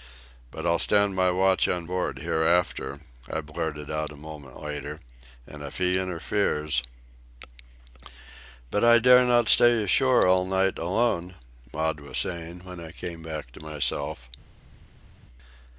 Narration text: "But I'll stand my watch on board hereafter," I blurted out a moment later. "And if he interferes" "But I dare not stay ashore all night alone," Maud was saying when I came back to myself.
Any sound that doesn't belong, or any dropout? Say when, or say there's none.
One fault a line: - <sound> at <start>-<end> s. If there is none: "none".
none